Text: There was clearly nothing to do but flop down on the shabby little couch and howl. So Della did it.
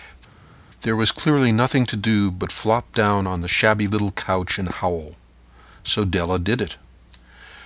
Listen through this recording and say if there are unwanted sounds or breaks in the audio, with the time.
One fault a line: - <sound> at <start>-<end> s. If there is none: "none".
none